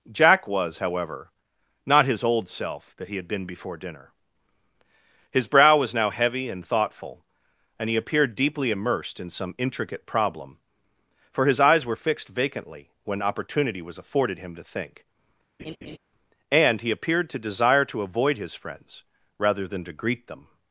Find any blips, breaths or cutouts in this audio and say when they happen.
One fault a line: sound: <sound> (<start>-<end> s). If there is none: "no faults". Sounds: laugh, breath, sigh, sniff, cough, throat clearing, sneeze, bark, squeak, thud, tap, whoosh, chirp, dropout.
sound: laugh (15.6-16.0 s)